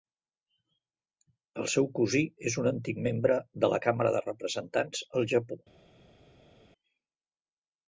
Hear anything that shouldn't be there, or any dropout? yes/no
no